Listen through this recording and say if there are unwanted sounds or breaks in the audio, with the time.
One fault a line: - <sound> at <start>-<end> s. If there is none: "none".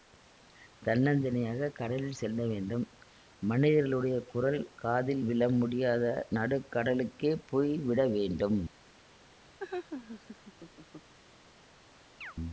- laugh at 9.6-11.1 s
- chirp at 12.2-12.3 s